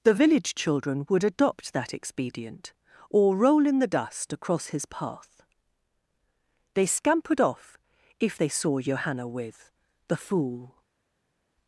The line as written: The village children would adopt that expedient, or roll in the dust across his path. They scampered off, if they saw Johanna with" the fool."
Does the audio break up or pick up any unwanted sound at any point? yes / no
no